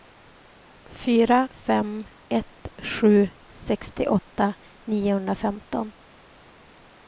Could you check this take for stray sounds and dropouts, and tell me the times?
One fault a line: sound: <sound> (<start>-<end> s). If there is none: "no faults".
no faults